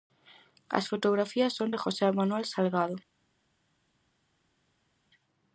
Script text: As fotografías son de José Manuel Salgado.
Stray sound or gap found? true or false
false